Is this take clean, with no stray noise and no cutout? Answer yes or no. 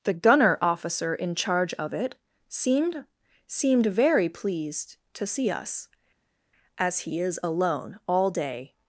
yes